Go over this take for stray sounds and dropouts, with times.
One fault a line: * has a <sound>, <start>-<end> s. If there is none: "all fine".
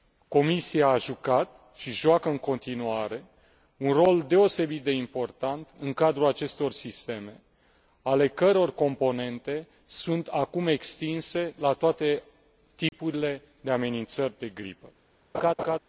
* has a dropout, 12.9-12.9 s
* has a laugh, 15.3-15.8 s